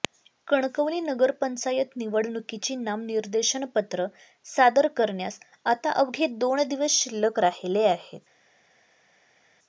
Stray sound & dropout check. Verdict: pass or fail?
pass